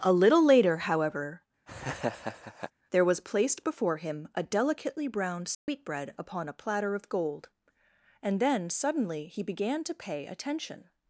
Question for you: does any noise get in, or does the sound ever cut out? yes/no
yes